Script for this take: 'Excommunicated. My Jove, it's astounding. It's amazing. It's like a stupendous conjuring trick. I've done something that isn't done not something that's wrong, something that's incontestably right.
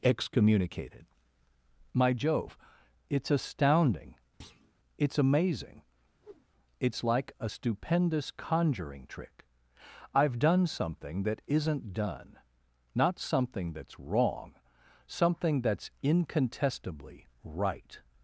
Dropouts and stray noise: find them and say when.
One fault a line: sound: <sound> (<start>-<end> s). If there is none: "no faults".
sound: thud (4.4-4.7 s)
sound: whoosh (6.2-6.5 s)